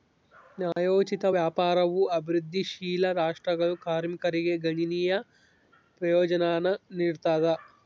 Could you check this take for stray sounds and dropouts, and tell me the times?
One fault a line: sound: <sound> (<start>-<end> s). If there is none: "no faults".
sound: dropout (0.7-0.8 s)